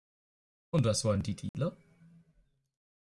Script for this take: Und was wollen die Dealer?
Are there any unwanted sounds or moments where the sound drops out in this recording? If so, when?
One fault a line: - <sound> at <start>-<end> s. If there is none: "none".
- dropout at 1.5-1.5 s